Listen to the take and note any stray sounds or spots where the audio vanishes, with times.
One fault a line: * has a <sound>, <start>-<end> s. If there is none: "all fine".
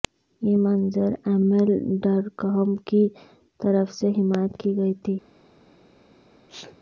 * has a sneeze, 6.5-6.8 s